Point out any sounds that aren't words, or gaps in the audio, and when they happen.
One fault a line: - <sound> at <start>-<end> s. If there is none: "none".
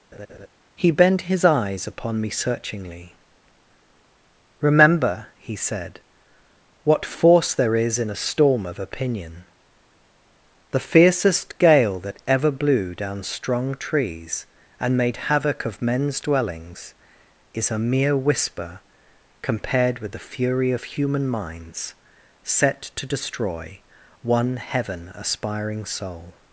- laugh at 0.1-0.5 s